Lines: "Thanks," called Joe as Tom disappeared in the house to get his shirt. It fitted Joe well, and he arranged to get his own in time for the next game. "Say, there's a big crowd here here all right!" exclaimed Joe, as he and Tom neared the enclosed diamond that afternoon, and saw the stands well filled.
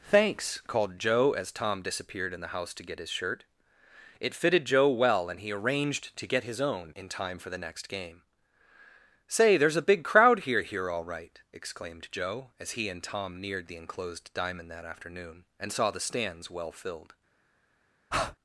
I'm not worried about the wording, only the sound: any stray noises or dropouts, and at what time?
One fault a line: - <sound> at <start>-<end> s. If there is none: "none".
- breath at 18.1-18.4 s